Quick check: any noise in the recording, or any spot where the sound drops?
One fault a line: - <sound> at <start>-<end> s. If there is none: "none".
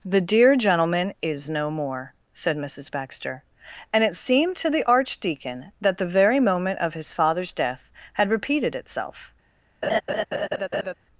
- laugh at 9.8-10.9 s